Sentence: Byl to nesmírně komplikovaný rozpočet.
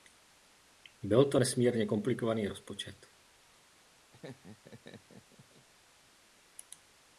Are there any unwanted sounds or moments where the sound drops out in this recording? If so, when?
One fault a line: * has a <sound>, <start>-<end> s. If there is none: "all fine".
* has a laugh, 4.1-5.7 s